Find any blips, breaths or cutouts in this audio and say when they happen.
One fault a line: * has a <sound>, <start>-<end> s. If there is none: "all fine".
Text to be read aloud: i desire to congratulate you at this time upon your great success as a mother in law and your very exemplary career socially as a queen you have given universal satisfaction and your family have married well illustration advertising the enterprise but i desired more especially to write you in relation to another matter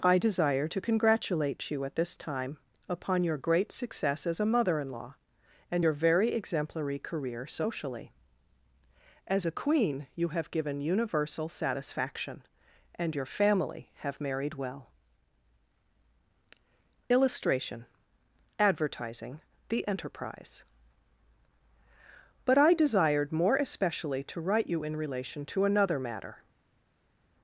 all fine